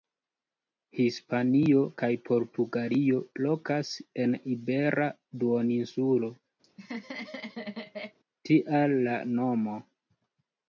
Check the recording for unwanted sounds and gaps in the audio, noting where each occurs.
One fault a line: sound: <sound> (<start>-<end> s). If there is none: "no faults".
sound: laugh (6.6-8.2 s)